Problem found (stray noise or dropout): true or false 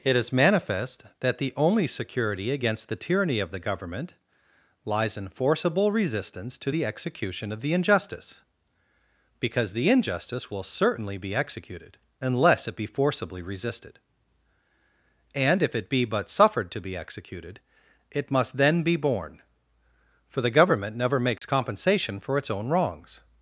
true